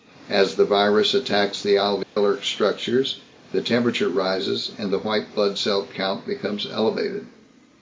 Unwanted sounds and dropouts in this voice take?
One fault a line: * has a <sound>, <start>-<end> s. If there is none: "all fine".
* has a dropout, 2.0-2.2 s